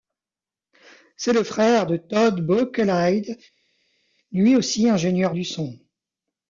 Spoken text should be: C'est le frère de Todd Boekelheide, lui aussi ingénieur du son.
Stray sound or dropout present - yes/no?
no